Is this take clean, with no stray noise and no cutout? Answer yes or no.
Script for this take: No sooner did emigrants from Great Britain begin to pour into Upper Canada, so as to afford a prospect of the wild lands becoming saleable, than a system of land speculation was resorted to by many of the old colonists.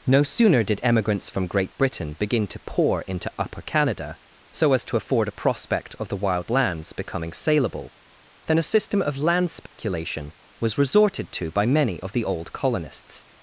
no